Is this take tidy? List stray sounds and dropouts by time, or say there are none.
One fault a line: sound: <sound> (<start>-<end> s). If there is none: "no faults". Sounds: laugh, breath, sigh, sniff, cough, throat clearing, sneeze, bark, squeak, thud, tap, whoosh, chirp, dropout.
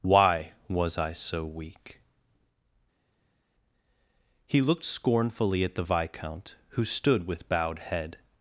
no faults